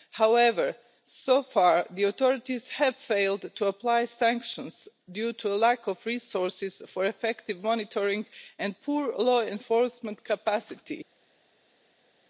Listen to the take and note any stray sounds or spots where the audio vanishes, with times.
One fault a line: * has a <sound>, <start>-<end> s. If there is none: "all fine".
all fine